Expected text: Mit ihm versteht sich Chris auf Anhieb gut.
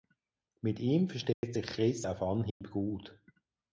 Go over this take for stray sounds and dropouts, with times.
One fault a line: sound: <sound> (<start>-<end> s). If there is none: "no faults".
sound: dropout (1.3-1.4 s)
sound: dropout (2.5-2.6 s)